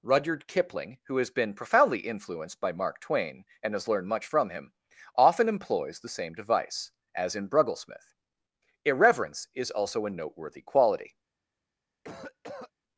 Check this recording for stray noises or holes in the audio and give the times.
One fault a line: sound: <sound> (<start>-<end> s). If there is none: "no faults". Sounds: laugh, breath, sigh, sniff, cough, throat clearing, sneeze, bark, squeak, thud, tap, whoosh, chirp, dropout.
sound: cough (12.0-12.7 s)